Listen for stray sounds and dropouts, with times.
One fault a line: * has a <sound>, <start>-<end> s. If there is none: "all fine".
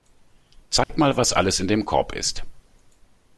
* has a dropout, 0.8-0.9 s